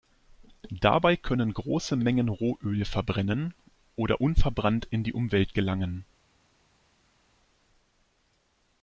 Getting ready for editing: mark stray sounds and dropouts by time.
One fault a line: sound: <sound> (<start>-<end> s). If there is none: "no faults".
no faults